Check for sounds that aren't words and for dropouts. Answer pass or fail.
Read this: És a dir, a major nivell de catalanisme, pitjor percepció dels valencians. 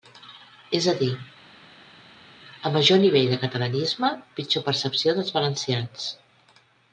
pass